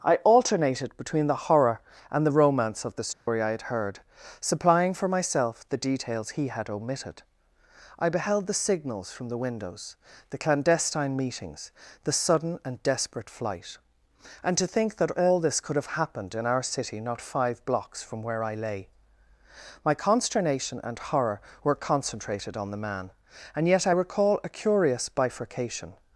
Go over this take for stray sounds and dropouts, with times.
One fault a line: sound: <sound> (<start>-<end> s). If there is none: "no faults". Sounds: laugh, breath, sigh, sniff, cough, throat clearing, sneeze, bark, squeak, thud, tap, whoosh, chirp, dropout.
sound: dropout (3.1-3.3 s)